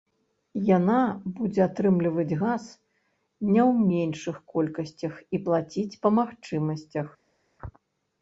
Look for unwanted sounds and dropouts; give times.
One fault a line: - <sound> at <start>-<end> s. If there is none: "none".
none